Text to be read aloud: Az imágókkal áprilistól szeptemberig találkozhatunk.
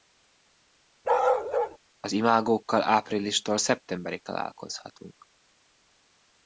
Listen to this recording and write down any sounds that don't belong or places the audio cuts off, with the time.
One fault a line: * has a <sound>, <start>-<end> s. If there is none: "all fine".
* has a bark, 1.0-1.8 s